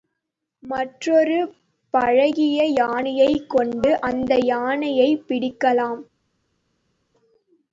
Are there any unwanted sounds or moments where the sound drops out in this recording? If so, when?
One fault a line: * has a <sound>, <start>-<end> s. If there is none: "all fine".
all fine